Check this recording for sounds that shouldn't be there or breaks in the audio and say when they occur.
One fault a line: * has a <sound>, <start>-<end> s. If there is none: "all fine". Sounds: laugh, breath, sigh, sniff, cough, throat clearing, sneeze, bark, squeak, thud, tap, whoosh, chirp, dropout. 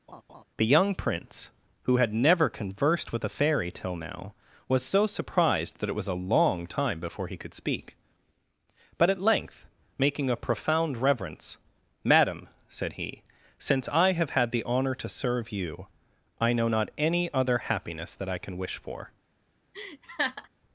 * has a laugh, 0.1-0.4 s
* has a laugh, 19.7-20.5 s